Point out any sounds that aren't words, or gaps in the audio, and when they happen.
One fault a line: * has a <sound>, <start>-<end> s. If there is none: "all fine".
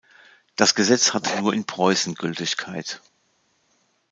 all fine